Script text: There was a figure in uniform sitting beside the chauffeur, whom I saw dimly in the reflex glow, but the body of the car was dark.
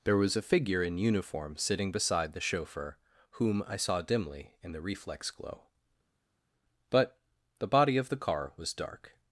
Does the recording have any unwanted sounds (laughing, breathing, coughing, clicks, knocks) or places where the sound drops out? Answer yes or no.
no